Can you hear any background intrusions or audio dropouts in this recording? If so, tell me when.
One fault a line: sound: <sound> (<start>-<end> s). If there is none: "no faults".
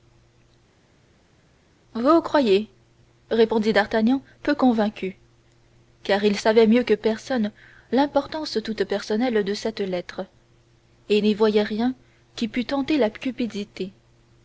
no faults